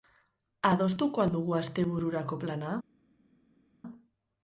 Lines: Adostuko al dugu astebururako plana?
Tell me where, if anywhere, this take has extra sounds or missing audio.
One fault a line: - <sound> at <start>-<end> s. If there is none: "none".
none